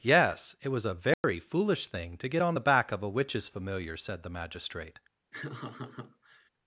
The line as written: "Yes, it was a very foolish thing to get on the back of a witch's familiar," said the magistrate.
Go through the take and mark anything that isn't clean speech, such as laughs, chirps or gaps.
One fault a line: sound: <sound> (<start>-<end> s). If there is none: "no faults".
sound: dropout (1.1-1.2 s)
sound: laugh (5.3-6.5 s)